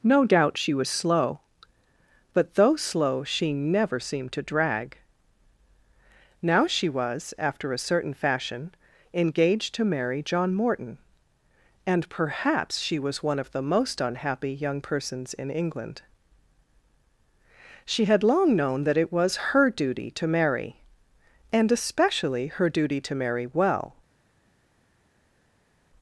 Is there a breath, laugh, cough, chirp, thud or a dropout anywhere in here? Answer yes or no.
no